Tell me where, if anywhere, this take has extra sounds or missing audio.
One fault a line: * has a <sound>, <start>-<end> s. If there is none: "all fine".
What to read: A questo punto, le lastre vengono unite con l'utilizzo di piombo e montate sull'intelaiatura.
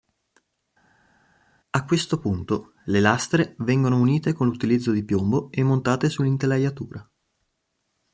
all fine